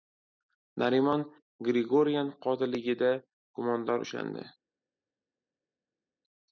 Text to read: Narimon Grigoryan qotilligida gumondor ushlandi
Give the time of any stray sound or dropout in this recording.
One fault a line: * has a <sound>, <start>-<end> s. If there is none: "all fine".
all fine